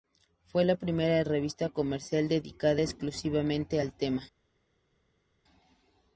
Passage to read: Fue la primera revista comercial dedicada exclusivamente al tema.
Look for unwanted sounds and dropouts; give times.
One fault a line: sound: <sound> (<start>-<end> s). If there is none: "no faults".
no faults